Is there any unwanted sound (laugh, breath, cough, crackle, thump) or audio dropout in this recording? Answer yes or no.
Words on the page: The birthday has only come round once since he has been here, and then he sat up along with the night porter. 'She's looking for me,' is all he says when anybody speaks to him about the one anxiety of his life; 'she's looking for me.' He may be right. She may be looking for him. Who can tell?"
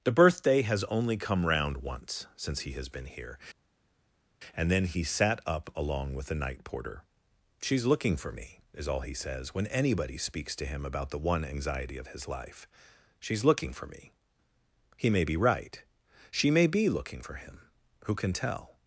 no